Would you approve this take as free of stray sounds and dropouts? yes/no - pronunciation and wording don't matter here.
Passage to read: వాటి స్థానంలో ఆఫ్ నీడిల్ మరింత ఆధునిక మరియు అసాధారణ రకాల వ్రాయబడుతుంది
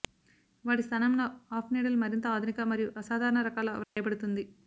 no